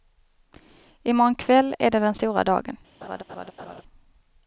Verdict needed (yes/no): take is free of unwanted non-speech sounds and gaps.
no